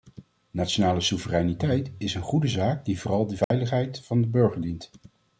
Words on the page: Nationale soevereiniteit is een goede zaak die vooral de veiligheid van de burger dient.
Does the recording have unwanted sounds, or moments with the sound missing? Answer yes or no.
yes